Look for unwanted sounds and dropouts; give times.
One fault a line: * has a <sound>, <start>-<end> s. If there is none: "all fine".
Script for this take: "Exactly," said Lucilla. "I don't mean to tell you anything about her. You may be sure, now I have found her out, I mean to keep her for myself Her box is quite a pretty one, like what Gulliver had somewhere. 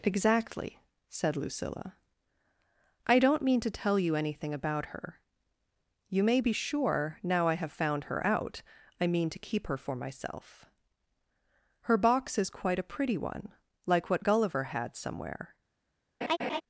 * has a laugh, 16.2-16.6 s